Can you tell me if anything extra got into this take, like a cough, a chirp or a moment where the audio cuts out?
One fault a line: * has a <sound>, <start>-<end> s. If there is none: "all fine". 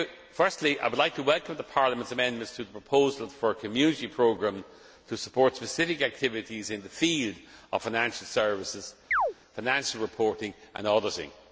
* has a chirp, 9.1-9.3 s